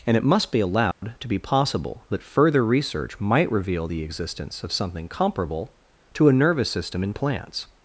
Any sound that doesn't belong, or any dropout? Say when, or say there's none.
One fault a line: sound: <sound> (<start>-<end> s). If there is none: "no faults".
sound: dropout (0.9-1.0 s)